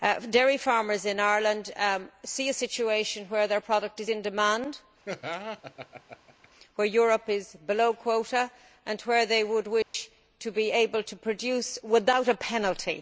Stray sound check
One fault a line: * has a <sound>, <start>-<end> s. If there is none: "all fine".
* has a laugh, 5.0-6.5 s
* has a dropout, 9.8-9.9 s